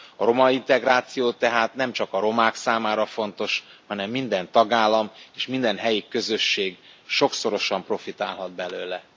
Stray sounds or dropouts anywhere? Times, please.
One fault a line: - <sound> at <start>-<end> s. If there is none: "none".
none